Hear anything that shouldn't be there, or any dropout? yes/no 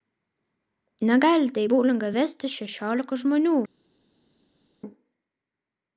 no